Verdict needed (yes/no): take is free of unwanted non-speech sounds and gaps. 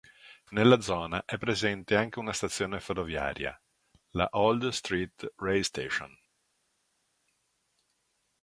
yes